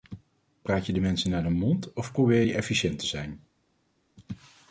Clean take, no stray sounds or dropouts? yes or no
yes